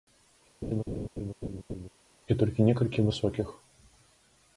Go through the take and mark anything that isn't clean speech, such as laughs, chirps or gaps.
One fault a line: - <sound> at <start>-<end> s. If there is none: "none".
- laugh at 0.6-1.9 s